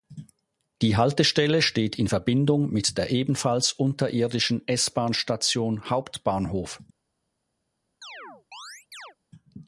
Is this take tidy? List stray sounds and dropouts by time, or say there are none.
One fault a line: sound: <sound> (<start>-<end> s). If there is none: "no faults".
sound: chirp (8.0-9.2 s)